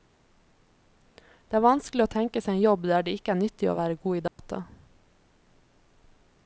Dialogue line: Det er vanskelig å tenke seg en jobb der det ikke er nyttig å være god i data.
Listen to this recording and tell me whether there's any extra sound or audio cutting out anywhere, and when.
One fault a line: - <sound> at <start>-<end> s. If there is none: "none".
- dropout at 4.3-4.4 s